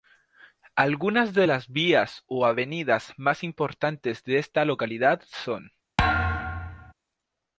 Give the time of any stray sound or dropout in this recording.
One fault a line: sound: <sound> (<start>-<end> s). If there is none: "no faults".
sound: thud (6.0-6.9 s)